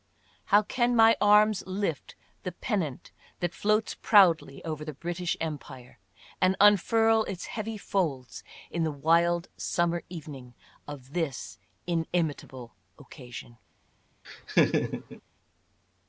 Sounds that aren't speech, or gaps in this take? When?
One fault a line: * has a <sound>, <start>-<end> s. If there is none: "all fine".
* has a laugh, 14.2-15.2 s